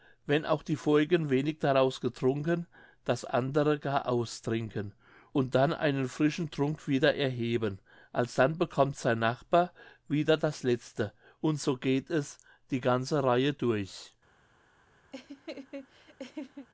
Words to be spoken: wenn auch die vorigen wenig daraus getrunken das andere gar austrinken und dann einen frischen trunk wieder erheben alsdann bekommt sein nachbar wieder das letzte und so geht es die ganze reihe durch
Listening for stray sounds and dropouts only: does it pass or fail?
fail